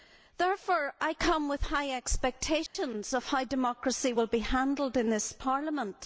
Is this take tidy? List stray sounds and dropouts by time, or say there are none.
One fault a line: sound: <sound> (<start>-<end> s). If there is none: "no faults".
sound: dropout (2.7-2.7 s)